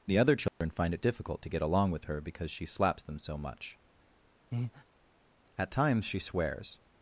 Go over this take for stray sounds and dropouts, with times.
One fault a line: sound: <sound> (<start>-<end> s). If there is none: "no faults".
sound: dropout (0.5-0.6 s)
sound: breath (4.5-4.8 s)